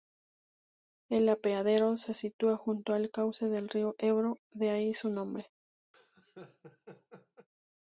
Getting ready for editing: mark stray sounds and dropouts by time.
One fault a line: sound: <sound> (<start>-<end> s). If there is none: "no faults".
sound: laugh (5.9-7.5 s)